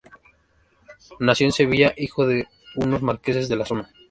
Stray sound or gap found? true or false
false